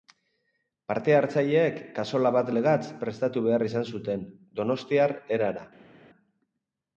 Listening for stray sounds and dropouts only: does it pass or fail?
pass